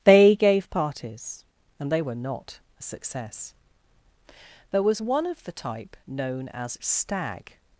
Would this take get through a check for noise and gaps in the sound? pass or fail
pass